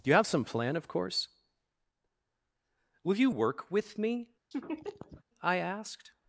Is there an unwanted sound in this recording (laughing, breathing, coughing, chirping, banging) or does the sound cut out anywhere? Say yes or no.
yes